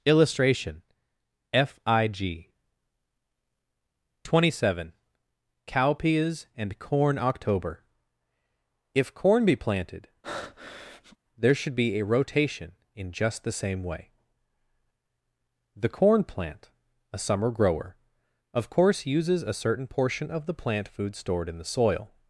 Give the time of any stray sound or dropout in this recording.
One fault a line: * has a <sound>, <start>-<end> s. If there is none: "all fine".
* has a breath, 10.2-11.2 s